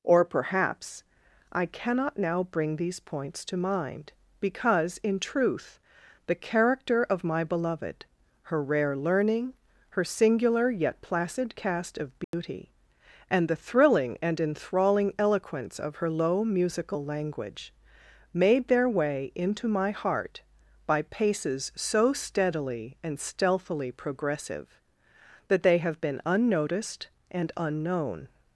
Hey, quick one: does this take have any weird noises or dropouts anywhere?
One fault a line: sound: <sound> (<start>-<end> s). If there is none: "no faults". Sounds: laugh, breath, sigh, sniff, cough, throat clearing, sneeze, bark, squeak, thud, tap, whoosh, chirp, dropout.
sound: dropout (12.2-12.3 s)